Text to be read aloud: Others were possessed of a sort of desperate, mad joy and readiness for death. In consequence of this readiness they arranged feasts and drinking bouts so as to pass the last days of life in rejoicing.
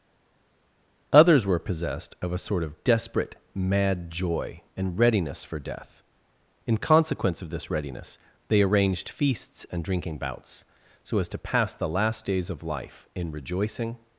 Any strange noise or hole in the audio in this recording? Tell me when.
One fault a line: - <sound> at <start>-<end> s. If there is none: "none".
none